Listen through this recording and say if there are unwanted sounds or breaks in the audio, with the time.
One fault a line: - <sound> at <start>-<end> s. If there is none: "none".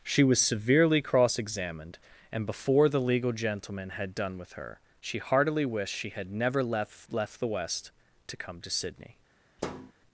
- thud at 9.6-9.9 s